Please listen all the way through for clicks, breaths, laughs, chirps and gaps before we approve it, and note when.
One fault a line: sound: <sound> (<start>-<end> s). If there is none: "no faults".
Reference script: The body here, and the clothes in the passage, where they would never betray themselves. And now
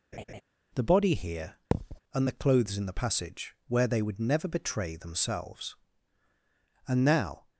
sound: laugh (0.1-0.4 s)
sound: thud (1.7-2.0 s)